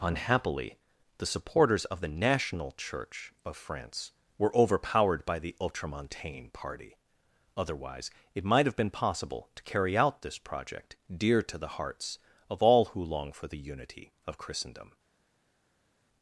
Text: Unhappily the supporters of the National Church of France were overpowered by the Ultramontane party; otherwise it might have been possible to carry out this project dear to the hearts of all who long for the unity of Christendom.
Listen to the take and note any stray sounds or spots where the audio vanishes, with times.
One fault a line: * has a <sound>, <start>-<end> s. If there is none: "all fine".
all fine